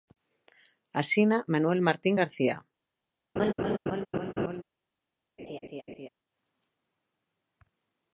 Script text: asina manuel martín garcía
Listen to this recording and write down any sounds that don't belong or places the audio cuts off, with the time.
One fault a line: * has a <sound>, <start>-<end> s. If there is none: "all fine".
* has a laugh, 3.4-4.6 s
* has a laugh, 5.4-6.1 s